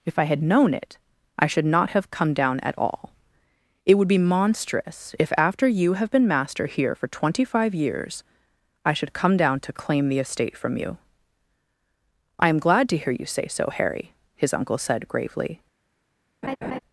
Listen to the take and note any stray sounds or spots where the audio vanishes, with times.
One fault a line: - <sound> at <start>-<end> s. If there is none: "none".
- laugh at 16.4-16.8 s